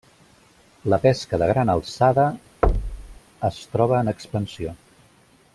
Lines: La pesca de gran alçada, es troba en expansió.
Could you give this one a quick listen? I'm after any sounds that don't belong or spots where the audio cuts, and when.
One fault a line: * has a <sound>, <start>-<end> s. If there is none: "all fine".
* has a thud, 2.6-3.2 s